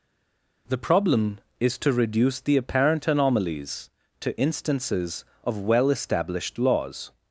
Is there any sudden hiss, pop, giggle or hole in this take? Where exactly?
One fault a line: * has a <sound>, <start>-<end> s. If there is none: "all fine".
all fine